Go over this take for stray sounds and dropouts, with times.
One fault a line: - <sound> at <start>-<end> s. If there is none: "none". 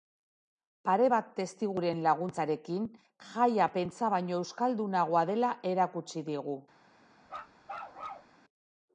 - bark at 7.3-8.3 s